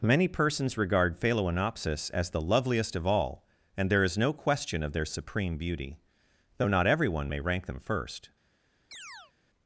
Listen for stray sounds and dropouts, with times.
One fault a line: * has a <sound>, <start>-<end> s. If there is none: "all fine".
* has a chirp, 8.9-9.3 s